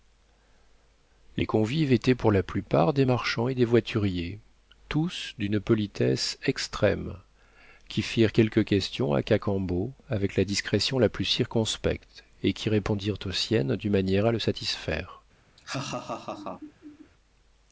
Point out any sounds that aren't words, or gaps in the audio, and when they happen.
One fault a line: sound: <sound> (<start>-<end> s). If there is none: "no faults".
sound: laugh (15.6-17.1 s)